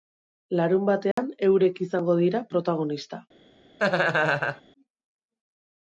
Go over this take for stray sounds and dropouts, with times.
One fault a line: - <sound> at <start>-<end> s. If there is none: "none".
- dropout at 1.1-1.2 s
- laugh at 3.8-4.6 s